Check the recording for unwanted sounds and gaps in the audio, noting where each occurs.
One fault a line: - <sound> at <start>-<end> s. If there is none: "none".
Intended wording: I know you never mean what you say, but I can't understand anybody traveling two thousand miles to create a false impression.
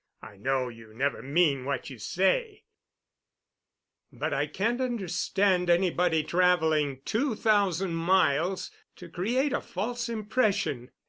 none